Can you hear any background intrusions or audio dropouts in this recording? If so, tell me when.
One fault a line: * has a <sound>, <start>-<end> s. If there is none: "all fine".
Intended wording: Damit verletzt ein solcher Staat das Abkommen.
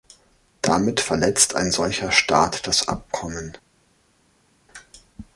all fine